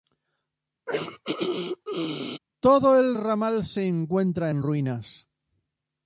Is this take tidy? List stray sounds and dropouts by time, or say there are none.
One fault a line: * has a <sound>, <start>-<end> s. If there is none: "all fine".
* has a throat clearing, 0.9-2.4 s